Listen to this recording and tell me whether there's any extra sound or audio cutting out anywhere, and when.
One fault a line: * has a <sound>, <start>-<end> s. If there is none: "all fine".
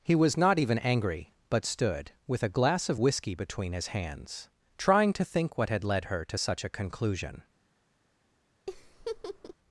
* has a laugh, 8.7-9.5 s